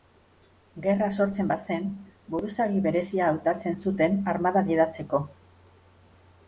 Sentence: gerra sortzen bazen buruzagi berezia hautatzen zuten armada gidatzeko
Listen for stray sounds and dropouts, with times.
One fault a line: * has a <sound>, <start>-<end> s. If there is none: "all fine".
all fine